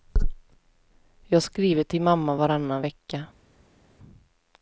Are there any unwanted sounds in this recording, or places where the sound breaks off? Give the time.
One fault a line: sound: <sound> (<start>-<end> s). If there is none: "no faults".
no faults